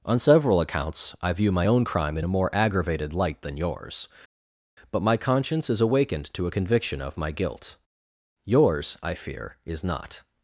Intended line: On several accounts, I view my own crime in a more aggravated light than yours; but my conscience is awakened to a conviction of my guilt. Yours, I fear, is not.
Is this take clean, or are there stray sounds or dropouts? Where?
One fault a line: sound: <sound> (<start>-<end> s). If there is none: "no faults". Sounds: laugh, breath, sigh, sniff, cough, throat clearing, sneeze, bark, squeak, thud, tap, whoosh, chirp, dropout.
no faults